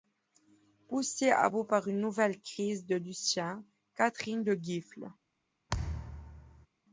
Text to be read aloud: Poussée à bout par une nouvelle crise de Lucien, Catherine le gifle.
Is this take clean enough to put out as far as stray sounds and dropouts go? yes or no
no